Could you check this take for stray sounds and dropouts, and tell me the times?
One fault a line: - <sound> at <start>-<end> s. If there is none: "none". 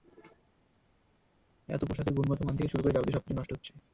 none